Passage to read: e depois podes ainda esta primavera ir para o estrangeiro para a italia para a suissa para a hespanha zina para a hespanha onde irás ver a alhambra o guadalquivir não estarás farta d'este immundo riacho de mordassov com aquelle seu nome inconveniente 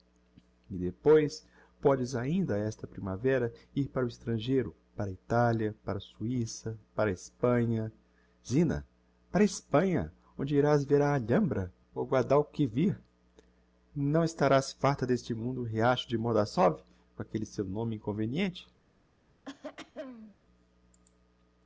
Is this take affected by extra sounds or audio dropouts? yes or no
yes